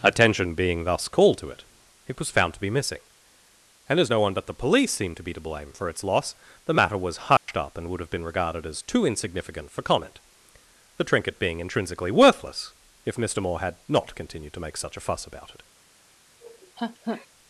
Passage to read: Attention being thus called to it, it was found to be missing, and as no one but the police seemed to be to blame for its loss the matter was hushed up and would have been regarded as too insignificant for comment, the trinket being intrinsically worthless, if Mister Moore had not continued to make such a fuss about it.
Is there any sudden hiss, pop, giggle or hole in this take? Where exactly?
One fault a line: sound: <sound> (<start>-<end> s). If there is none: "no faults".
sound: dropout (7.4-7.5 s)
sound: laugh (16.4-17.3 s)